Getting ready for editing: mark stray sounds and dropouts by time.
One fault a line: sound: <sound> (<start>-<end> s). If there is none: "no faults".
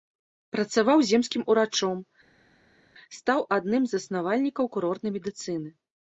no faults